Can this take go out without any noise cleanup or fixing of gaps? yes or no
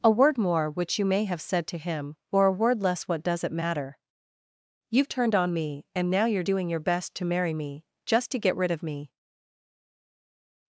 yes